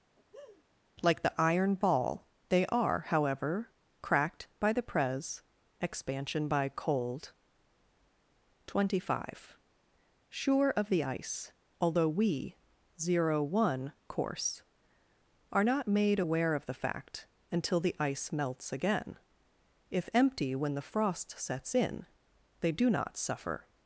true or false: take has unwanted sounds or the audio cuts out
true